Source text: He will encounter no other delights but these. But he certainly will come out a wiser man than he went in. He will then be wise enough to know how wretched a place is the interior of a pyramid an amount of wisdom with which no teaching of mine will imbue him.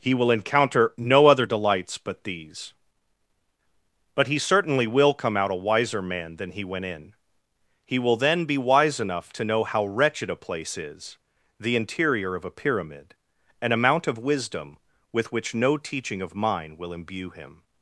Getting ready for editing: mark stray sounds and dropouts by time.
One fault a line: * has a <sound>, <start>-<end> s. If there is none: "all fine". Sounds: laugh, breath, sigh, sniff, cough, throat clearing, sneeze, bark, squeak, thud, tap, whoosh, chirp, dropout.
all fine